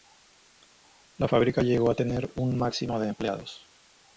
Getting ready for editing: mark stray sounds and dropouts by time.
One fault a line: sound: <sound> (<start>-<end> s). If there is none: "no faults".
no faults